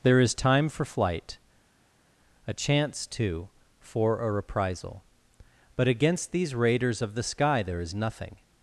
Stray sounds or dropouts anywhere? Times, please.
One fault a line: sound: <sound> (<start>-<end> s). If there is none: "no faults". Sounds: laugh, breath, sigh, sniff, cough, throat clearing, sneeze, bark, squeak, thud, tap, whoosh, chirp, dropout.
no faults